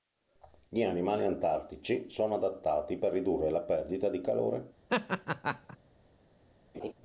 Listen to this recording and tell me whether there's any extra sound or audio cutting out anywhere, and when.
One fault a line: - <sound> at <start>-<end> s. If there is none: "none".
- laugh at 4.9-5.8 s
- laugh at 6.7-6.9 s